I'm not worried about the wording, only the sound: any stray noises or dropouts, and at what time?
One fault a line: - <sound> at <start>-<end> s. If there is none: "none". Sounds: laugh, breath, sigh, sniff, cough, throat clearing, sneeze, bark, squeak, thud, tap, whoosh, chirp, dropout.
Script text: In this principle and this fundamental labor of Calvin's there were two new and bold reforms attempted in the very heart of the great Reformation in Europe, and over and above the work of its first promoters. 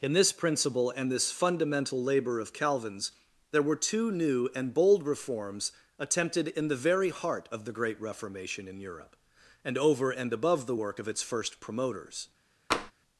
- tap at 12.7-12.9 s